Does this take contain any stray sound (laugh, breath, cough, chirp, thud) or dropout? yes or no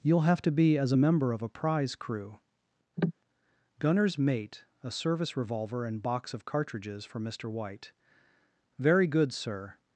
yes